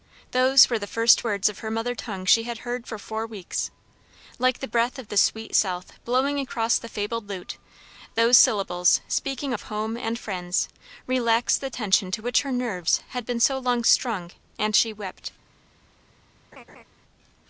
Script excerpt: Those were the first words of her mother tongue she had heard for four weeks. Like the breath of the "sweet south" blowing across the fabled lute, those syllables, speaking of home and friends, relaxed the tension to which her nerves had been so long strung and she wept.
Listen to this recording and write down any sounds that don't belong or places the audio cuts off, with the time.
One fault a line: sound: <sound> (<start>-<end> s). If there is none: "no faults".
sound: laugh (16.5-16.8 s)